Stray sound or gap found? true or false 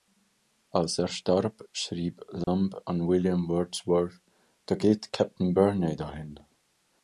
true